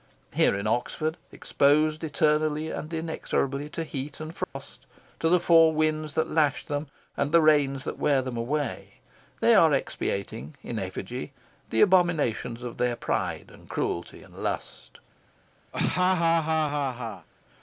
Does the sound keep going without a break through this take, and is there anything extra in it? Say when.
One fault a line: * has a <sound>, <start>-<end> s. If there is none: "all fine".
* has a dropout, 4.4-4.6 s
* has a laugh, 15.7-17.3 s